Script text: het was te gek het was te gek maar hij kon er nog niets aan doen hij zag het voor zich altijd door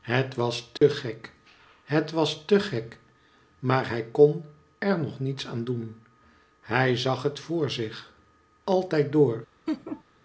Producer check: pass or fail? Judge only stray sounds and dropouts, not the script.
fail